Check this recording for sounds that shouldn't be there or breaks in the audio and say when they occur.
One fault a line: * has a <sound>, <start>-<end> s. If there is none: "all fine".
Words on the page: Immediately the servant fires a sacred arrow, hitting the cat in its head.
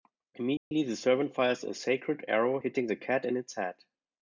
* has a dropout, 0.6-0.7 s